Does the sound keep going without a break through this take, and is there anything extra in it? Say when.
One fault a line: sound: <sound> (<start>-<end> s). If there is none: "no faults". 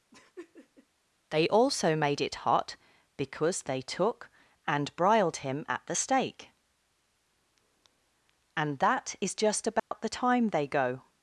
sound: laugh (0.1-0.9 s)
sound: dropout (9.8-9.9 s)